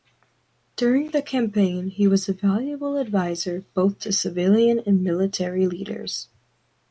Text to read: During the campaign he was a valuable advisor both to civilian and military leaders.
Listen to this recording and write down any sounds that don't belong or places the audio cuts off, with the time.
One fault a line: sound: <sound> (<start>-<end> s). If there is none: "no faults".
no faults